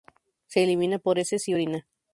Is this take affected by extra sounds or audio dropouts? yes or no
no